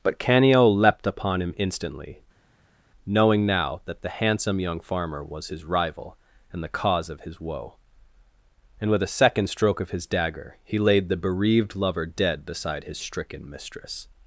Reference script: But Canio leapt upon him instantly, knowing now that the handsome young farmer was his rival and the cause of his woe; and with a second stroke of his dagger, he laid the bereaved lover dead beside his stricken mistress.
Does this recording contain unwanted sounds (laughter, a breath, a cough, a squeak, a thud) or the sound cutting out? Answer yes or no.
no